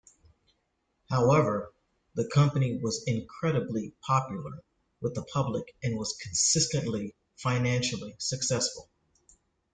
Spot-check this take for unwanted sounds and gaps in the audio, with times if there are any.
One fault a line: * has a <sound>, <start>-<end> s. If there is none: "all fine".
all fine